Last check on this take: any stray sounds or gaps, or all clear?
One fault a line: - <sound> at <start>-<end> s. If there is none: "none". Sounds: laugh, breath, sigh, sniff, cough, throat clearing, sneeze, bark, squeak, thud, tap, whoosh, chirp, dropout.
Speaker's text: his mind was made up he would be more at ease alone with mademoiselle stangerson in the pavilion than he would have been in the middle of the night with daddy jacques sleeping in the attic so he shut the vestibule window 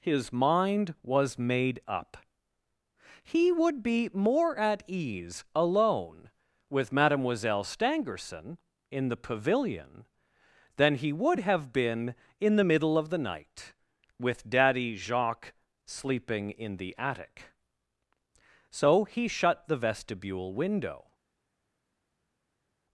none